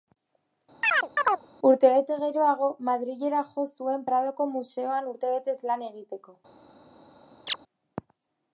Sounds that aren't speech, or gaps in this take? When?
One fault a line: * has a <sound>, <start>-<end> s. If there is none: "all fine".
* has a chirp, 0.8-1.5 s
* has a chirp, 7.5-7.6 s